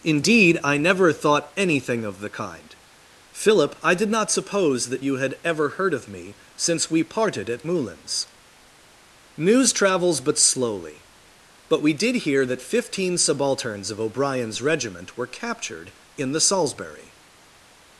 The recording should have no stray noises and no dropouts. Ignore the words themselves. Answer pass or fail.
pass